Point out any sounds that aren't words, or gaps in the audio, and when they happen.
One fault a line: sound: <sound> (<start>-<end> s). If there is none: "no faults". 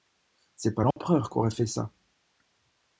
sound: dropout (0.9-1.0 s)